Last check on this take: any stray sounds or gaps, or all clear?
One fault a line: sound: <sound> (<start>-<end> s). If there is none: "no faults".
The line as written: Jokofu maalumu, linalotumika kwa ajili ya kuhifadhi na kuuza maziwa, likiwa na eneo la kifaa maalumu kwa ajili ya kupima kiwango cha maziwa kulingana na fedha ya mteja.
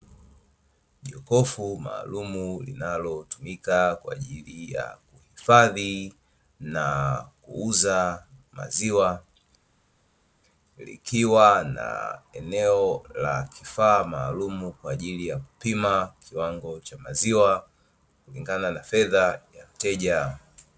no faults